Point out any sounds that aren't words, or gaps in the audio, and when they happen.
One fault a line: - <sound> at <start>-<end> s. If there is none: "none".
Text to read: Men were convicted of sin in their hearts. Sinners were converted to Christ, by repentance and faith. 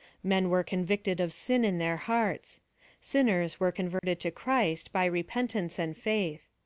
- dropout at 4.0-4.0 s